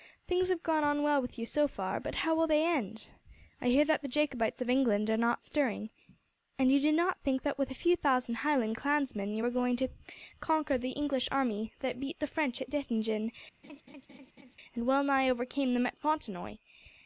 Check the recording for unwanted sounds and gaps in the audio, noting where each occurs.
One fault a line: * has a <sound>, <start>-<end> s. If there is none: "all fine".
* has a laugh, 13.6-14.6 s